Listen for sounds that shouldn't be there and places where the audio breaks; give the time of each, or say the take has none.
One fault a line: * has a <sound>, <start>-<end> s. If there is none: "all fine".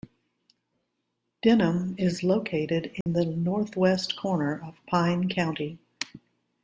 * has a dropout, 3.0-3.1 s